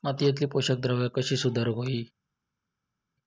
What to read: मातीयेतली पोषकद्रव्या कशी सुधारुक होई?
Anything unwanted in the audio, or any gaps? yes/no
no